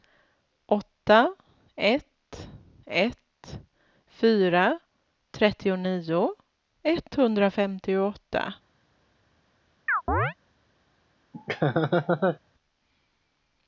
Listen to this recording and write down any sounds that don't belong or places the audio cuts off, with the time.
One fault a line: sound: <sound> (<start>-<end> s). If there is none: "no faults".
sound: chirp (9.9-10.3 s)
sound: laugh (11.3-12.4 s)